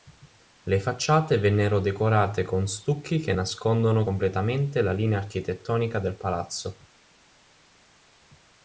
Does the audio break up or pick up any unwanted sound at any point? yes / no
no